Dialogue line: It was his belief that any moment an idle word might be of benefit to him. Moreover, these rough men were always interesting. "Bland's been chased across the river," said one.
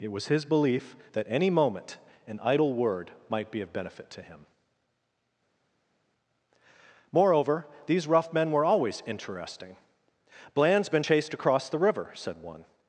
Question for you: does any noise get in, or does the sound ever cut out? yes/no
no